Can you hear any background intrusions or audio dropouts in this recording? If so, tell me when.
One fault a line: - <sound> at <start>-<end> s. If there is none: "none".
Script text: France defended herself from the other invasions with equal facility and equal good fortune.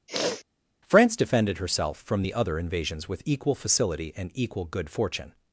- sniff at 0.1-0.4 s